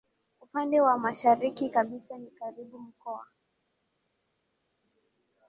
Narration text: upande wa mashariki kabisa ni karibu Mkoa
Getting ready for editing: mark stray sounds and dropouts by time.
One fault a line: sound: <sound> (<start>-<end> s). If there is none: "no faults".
no faults